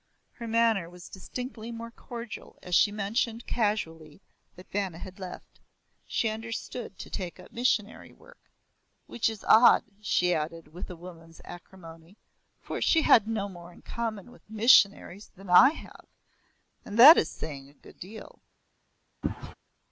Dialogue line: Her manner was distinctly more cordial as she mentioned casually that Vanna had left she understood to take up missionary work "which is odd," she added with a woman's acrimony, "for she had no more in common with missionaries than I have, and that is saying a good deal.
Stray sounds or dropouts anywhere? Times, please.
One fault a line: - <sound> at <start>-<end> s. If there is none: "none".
- sneeze at 19.2-19.5 s